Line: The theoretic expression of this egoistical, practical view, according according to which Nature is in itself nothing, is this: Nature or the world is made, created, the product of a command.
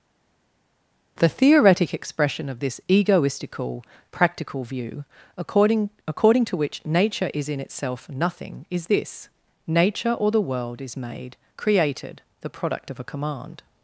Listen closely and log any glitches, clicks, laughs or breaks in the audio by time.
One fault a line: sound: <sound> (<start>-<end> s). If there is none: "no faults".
no faults